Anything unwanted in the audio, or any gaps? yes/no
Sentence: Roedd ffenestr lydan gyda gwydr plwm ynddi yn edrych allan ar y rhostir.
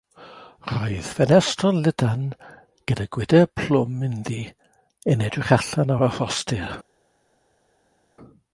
no